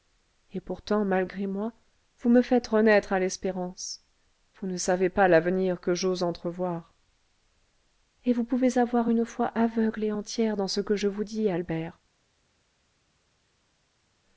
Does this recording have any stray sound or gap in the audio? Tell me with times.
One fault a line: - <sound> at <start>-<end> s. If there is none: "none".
none